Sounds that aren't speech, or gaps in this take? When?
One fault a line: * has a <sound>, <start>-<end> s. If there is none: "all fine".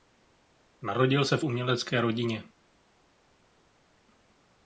all fine